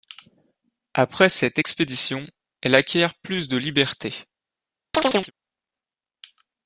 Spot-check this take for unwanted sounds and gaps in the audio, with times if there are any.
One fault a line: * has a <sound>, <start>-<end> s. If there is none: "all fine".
* has a chirp, 4.9-5.3 s